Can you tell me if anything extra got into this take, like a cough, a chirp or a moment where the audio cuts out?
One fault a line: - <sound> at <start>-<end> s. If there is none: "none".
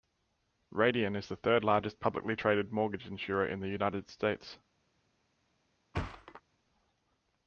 - thud at 5.9-6.4 s